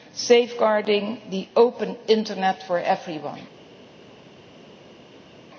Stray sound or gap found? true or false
false